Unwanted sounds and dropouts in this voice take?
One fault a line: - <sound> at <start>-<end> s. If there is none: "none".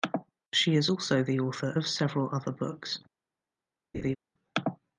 - laugh at 3.9-4.2 s